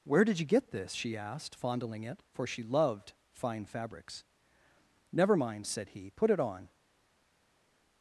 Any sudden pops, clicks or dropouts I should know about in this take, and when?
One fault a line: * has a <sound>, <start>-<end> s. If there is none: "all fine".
all fine